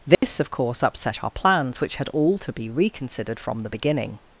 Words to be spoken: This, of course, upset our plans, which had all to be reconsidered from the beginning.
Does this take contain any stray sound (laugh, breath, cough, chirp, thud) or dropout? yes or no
yes